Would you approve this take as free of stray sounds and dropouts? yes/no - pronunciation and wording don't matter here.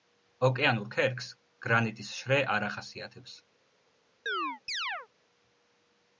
no